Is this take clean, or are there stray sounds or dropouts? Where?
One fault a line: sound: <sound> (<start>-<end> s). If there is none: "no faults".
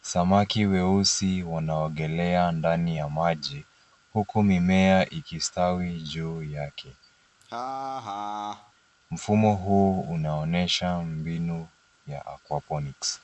sound: laugh (7.4-8.7 s)